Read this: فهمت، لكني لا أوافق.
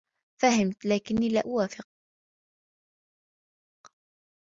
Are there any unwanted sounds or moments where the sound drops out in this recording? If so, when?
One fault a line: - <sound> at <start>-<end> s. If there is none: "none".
none